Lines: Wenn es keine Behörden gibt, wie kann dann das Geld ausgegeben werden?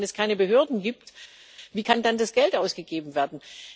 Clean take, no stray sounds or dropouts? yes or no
yes